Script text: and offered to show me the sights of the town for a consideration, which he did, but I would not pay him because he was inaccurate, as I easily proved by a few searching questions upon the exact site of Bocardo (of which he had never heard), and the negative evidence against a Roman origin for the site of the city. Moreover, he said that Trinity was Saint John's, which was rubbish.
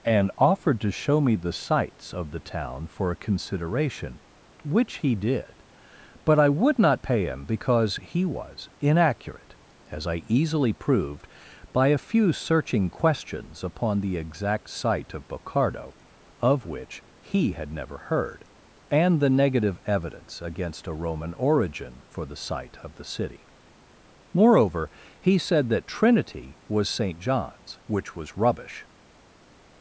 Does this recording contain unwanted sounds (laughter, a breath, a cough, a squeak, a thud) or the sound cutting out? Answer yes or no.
no